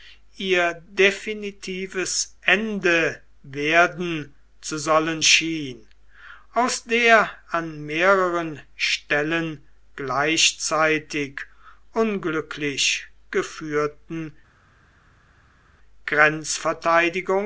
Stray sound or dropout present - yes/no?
no